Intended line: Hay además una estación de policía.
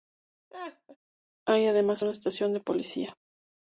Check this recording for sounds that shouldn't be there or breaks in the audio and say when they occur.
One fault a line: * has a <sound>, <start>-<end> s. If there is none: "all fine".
* has a laugh, 0.5-1.0 s